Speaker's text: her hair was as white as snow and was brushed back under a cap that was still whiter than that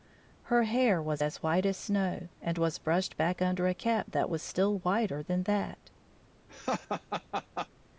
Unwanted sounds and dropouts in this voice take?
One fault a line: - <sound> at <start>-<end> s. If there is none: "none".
- laugh at 6.5-7.7 s